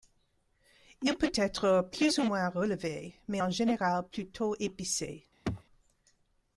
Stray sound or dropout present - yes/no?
yes